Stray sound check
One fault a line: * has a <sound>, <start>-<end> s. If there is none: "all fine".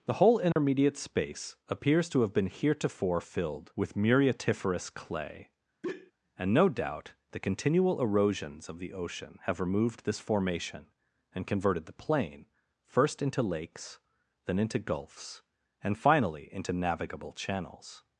* has a dropout, 0.5-0.6 s
* has a sigh, 5.8-6.1 s